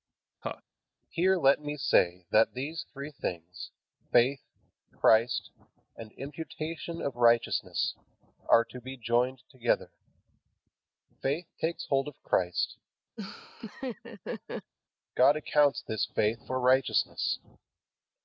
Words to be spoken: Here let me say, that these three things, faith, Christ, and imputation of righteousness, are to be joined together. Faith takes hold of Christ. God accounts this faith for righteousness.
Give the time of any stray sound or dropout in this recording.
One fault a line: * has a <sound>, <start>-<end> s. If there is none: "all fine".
* has a laugh, 0.4-0.6 s
* has a laugh, 13.2-14.7 s